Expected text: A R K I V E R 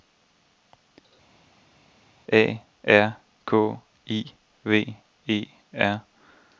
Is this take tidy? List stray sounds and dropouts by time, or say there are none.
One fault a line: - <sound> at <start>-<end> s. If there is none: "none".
none